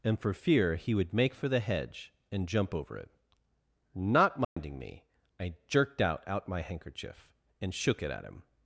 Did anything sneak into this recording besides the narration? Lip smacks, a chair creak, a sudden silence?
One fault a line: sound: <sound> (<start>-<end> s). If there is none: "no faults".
sound: dropout (4.4-4.6 s)